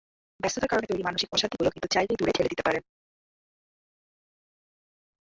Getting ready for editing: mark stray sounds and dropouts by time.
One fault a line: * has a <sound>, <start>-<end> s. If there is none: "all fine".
all fine